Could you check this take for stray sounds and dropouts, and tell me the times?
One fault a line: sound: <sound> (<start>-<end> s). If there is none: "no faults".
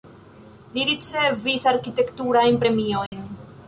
sound: dropout (3.1-3.1 s)